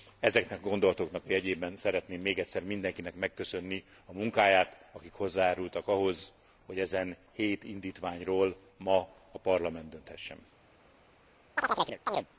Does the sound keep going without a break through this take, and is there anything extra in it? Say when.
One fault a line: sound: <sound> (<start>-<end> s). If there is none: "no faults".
sound: chirp (11.6-12.3 s)